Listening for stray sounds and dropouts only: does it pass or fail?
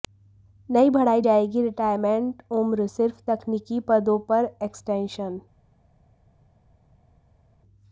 pass